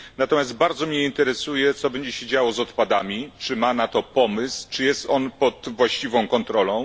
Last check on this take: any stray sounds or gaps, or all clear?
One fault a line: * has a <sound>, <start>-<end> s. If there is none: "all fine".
all fine